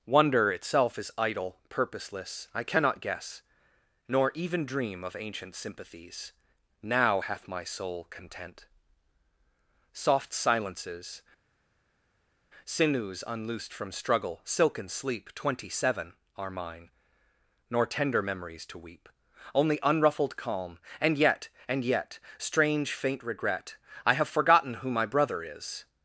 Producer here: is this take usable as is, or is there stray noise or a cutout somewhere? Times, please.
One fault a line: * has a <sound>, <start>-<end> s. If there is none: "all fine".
all fine